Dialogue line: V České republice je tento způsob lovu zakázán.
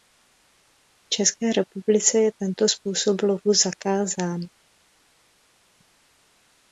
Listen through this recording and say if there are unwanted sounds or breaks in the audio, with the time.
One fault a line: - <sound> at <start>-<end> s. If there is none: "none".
none